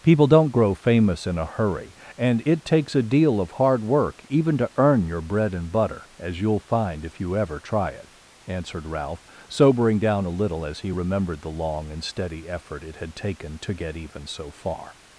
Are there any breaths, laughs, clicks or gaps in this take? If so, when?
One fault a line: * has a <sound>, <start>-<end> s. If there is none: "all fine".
all fine